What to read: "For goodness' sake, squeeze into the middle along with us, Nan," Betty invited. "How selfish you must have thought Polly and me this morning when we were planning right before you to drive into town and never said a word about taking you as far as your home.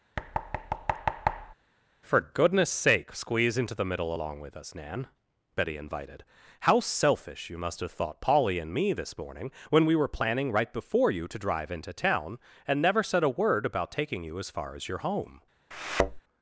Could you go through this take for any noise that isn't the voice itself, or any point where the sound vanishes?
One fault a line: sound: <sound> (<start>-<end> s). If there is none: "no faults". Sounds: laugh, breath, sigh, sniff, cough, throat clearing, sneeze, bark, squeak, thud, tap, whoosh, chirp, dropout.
sound: thud (0.2-1.5 s)
sound: thud (15.7-16.2 s)